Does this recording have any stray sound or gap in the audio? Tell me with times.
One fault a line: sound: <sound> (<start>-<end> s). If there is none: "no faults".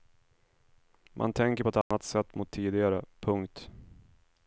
sound: dropout (1.8-1.9 s)